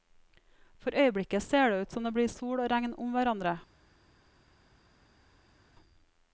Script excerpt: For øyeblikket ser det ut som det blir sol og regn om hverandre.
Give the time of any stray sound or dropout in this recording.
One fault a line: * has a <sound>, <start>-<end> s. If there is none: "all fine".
all fine